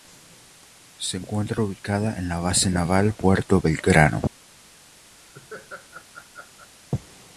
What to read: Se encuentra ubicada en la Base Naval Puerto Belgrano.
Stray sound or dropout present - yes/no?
yes